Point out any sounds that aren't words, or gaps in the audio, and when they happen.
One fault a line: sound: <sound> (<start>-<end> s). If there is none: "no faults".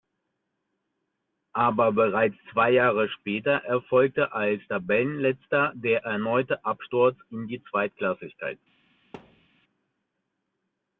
sound: thud (9.1-9.5 s)